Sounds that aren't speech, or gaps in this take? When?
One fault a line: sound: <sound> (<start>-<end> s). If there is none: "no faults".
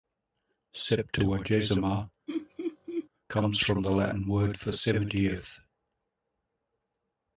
sound: laugh (2.3-3.1 s)